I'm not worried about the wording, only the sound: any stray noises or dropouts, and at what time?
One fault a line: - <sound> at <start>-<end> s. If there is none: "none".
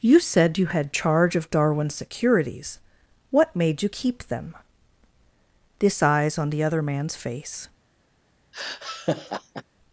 - laugh at 8.5-9.6 s